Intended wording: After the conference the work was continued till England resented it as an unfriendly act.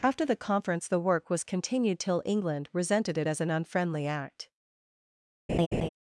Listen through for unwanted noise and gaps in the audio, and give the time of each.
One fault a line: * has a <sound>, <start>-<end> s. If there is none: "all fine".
* has a laugh, 5.5-5.9 s